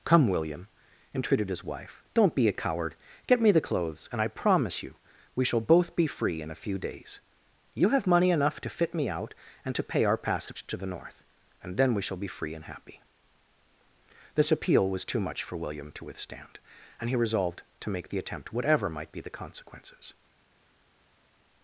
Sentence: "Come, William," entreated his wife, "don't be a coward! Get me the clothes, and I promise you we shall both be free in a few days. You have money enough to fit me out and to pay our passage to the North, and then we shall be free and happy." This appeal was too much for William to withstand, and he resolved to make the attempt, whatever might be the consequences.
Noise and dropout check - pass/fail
pass